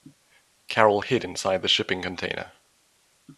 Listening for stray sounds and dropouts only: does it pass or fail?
pass